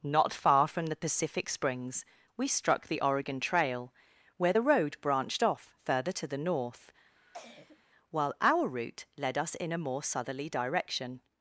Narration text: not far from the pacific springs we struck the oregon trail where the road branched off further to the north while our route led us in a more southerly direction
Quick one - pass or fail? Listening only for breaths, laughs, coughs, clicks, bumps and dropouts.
fail